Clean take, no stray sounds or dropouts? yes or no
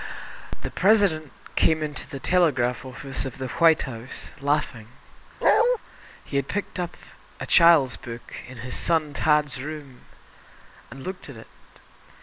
no